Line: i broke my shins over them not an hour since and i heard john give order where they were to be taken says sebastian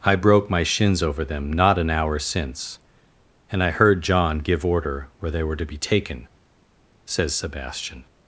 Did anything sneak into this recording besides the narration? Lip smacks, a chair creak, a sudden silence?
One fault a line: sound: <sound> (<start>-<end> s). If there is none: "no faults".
no faults